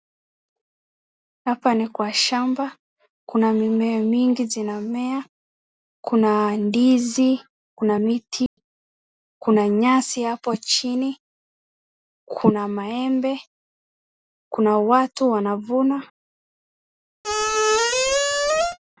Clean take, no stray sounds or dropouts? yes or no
no